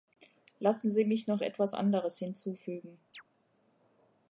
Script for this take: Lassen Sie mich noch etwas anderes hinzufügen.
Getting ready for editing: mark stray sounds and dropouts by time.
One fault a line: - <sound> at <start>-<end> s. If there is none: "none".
- chirp at 3.1-3.2 s